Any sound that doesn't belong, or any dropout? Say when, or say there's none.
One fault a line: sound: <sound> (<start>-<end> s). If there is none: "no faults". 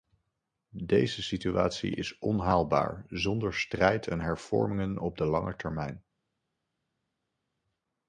no faults